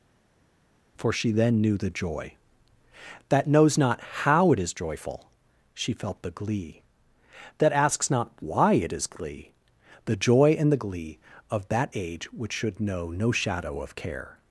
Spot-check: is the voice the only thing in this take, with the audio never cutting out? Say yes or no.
yes